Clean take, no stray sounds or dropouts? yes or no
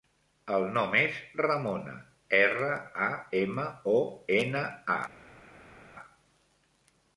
yes